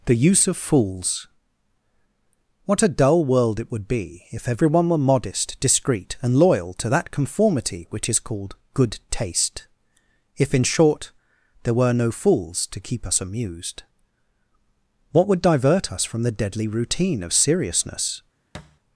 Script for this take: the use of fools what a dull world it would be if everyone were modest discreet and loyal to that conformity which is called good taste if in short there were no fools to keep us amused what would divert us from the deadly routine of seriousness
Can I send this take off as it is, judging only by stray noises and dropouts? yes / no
no